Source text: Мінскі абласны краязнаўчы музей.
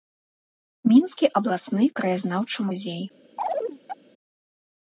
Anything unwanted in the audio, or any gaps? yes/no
yes